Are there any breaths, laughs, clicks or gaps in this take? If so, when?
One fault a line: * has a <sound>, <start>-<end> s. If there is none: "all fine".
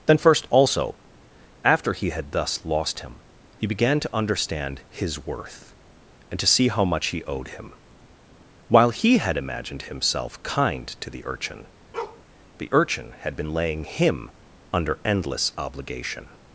* has a bark, 11.9-12.2 s